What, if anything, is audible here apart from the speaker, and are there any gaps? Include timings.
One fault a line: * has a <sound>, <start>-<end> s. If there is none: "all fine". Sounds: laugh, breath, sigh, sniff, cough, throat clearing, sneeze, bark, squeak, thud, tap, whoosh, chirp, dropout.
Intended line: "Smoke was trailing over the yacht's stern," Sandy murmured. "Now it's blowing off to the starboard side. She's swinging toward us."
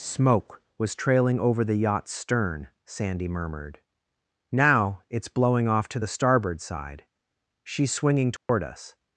* has a dropout, 8.4-8.5 s